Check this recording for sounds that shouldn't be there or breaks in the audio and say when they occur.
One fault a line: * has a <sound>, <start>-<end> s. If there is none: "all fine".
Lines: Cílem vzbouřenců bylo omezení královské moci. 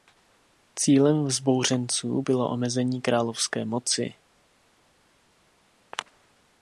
all fine